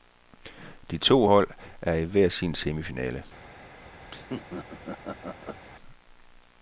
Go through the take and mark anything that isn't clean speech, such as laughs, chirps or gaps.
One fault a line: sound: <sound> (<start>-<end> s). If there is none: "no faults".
sound: laugh (4.1-5.6 s)